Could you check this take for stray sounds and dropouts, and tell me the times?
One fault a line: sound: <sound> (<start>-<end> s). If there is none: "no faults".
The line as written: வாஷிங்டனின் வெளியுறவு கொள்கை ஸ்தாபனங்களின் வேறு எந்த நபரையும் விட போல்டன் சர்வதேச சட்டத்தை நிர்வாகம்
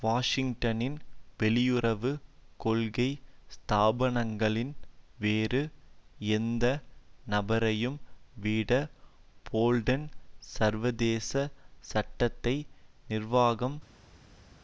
no faults